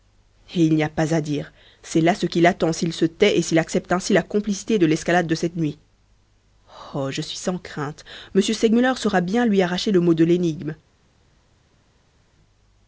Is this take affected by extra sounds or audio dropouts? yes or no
no